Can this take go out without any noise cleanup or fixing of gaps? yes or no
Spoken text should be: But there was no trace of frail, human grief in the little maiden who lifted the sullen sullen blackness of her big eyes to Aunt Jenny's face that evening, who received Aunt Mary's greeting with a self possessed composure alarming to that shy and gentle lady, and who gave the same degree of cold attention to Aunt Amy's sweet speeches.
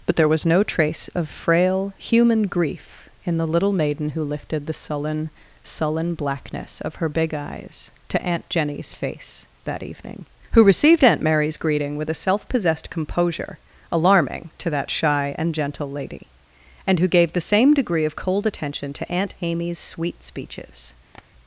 no